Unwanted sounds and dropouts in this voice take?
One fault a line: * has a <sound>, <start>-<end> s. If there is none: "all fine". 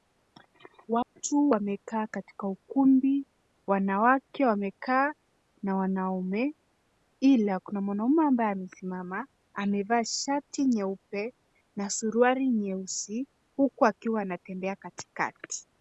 * has a dropout, 1.0-1.1 s